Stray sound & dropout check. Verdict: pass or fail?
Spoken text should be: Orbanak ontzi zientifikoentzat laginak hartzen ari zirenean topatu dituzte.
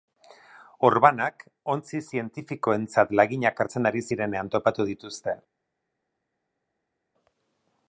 pass